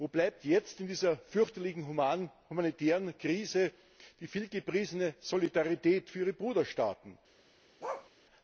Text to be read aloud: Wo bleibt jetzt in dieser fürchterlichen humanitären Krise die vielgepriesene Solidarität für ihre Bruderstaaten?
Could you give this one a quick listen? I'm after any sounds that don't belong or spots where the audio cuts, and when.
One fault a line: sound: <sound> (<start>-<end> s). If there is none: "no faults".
sound: bark (7.8-8.1 s)